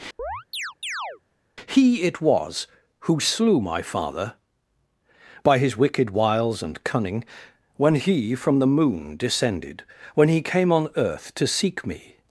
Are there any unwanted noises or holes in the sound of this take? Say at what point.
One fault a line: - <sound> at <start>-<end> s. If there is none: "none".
- chirp at 0.2-1.2 s